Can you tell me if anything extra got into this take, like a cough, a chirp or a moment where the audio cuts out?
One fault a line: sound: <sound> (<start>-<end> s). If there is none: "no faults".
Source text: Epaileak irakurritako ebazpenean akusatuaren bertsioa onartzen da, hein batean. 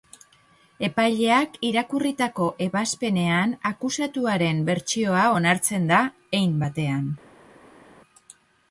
no faults